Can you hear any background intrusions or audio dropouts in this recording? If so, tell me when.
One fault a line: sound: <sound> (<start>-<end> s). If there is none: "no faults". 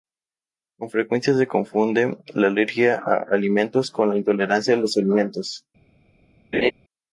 sound: laugh (6.5-6.7 s)